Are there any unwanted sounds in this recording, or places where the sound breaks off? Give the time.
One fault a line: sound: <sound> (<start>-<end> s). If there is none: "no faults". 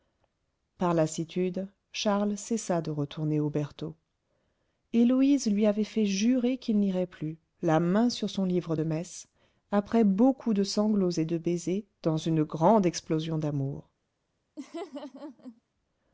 sound: laugh (14.6-15.6 s)